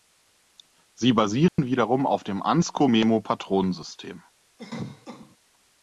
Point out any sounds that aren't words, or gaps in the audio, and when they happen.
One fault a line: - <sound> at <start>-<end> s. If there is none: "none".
- dropout at 1.5-1.6 s
- cough at 4.6-5.4 s